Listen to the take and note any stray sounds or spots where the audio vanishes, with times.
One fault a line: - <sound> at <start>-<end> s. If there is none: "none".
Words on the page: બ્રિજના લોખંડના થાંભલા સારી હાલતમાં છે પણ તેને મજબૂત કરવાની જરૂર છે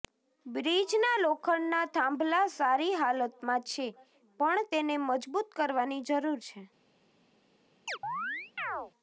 - chirp at 7.9-8.9 s